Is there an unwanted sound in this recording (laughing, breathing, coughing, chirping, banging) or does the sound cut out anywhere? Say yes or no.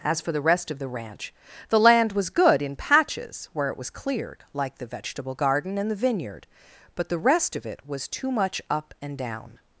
no